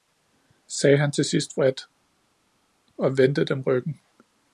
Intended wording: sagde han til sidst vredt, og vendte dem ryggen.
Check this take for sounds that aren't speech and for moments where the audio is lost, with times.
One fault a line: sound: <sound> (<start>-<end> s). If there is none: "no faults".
no faults